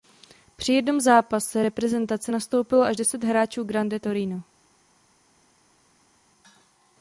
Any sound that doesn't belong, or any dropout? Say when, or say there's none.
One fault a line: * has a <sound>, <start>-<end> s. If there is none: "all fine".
all fine